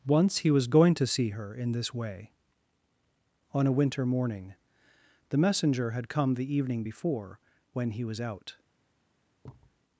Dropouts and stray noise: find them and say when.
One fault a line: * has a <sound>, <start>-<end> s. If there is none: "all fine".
* has a thud, 9.4-9.8 s